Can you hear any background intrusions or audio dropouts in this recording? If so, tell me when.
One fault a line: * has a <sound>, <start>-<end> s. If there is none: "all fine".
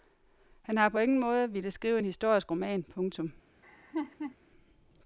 * has a laugh, 3.6-4.4 s